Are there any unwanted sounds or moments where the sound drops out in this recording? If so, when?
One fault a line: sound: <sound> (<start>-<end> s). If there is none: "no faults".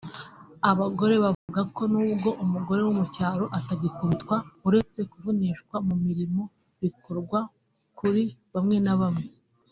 sound: dropout (1.3-1.5 s)